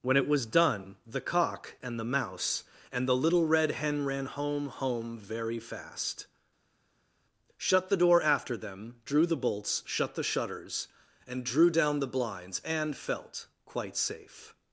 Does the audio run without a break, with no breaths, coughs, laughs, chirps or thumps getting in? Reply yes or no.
yes